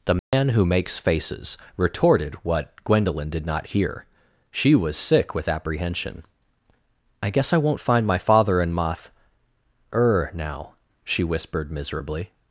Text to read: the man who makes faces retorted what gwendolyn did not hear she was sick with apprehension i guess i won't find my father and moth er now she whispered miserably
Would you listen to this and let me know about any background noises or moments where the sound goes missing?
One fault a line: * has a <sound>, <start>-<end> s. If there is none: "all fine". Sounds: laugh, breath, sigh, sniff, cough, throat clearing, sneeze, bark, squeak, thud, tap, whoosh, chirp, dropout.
* has a dropout, 0.2-0.3 s